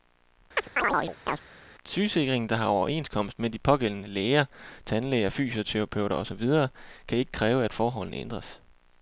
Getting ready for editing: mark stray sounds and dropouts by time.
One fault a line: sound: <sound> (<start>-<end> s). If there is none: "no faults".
sound: chirp (0.6-1.4 s)